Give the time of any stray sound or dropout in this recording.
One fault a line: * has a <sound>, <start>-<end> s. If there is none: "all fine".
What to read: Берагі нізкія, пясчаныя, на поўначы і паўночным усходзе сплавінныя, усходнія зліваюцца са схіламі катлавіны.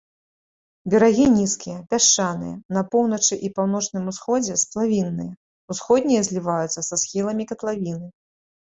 all fine